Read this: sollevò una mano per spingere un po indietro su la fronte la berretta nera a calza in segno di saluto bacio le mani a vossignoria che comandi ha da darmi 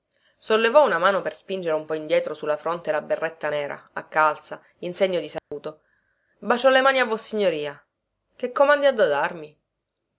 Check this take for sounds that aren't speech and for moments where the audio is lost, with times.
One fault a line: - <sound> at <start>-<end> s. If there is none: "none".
- dropout at 5.4-5.5 s